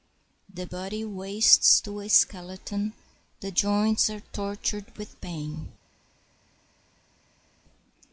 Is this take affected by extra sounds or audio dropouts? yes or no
no